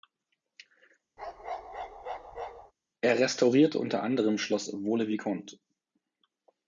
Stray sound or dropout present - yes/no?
yes